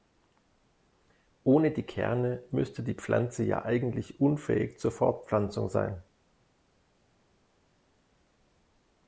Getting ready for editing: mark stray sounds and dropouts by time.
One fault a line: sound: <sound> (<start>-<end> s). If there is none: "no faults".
no faults